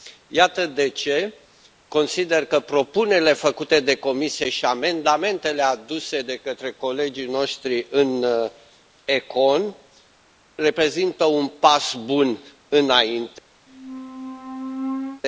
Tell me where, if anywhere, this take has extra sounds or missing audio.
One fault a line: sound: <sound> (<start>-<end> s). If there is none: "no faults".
sound: squeak (13.7-15.2 s)